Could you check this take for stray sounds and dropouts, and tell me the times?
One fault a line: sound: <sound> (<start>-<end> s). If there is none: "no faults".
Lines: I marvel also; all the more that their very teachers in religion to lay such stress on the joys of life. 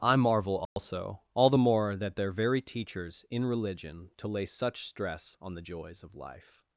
sound: dropout (0.7-0.8 s)